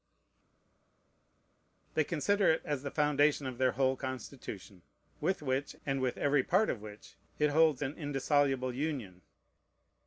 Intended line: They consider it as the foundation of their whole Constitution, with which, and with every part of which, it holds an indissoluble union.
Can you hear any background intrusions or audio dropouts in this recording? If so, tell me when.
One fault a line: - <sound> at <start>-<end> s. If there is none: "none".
none